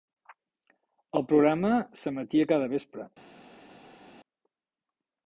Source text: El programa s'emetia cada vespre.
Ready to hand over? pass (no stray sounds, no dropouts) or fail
pass